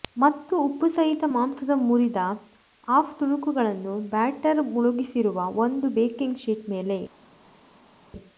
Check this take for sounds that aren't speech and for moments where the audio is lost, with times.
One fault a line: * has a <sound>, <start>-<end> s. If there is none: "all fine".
all fine